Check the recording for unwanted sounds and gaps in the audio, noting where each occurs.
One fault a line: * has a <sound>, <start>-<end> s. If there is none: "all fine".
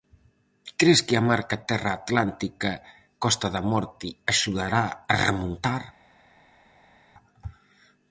all fine